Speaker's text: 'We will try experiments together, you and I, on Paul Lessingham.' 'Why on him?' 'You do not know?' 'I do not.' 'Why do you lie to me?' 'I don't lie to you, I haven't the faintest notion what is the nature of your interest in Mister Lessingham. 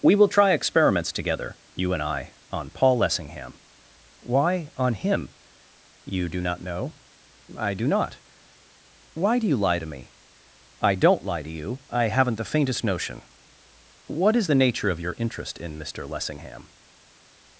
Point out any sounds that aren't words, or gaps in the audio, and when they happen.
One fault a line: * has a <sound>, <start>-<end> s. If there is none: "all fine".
all fine